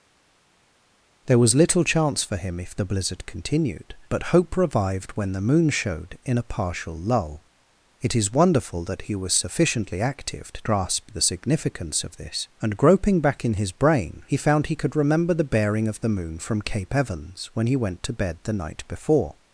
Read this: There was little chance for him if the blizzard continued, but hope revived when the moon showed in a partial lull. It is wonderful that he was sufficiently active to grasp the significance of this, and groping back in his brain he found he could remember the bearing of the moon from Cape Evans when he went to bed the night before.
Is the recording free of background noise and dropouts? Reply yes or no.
yes